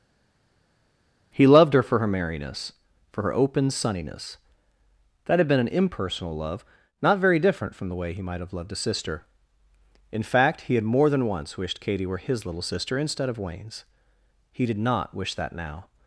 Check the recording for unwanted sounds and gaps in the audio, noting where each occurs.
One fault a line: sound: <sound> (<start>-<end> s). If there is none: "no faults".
no faults